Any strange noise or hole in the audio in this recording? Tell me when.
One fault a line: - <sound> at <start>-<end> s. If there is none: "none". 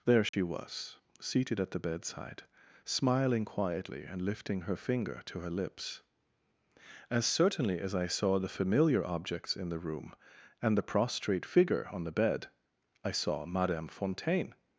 - dropout at 0.3-0.3 s